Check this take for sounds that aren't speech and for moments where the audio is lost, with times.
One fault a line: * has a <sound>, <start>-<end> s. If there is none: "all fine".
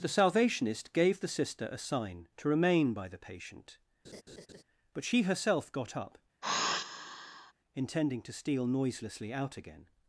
* has a laugh, 4.0-4.6 s
* has a sigh, 6.4-7.5 s